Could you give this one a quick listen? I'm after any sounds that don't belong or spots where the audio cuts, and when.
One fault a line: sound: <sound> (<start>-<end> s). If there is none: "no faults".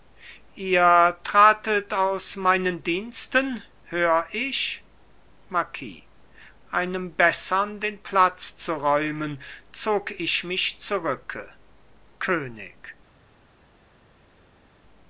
no faults